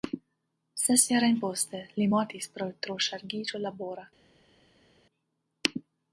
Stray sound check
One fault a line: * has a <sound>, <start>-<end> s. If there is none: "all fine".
all fine